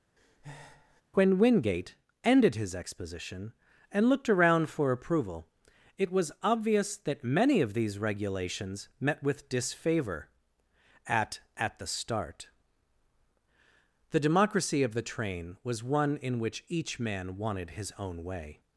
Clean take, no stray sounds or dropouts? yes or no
no